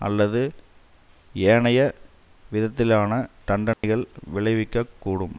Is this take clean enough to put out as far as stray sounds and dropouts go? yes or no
no